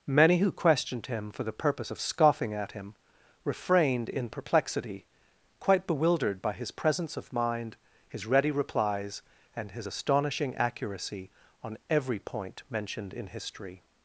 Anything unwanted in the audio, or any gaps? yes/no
no